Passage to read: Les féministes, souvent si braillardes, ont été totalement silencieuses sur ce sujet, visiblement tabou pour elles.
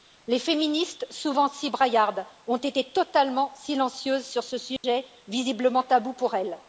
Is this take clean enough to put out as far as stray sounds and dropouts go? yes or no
no